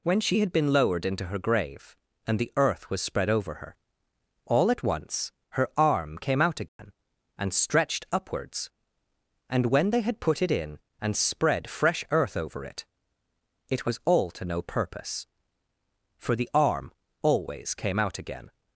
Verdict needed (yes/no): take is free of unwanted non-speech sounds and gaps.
no